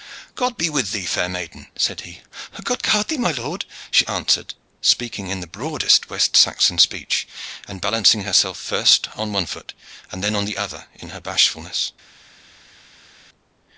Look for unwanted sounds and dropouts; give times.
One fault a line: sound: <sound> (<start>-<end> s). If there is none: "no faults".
no faults